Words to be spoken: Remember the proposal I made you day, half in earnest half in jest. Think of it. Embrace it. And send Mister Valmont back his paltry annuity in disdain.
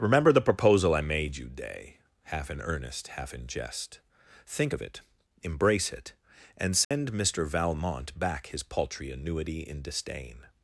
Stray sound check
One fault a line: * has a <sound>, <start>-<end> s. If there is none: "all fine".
* has a dropout, 6.8-6.9 s